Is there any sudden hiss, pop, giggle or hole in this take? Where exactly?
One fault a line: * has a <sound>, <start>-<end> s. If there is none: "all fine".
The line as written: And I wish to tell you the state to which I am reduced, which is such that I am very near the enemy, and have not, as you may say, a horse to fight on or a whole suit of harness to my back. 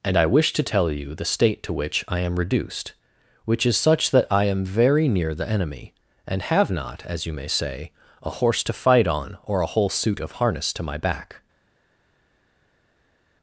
all fine